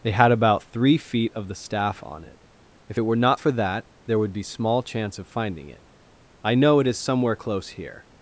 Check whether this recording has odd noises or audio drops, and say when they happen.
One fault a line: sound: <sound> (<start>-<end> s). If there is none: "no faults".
no faults